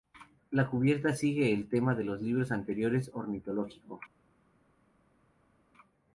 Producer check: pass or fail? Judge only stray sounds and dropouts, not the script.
pass